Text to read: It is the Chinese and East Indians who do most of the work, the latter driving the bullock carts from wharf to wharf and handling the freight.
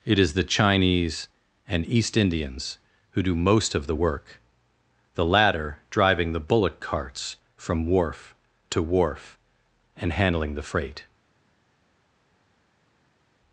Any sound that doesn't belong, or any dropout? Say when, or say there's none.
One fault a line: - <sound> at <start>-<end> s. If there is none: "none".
none